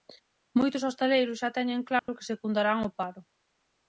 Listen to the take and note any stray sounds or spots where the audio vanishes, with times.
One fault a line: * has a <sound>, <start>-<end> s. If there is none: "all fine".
* has a dropout, 2.0-2.1 s